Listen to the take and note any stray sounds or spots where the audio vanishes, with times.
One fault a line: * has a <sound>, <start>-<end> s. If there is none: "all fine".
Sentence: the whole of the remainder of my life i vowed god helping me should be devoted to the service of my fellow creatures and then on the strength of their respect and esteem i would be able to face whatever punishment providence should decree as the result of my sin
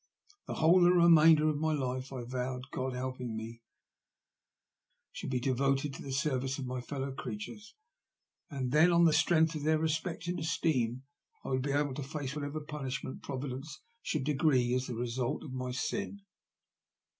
all fine